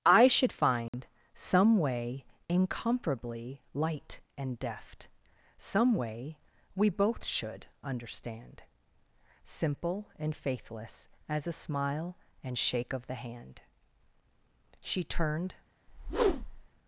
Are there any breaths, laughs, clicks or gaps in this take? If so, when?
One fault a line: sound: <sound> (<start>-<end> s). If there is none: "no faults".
sound: dropout (0.9-0.9 s)
sound: whoosh (15.9-16.7 s)